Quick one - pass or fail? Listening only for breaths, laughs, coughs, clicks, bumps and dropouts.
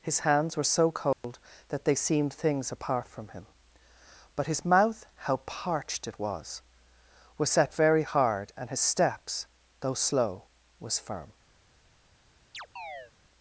fail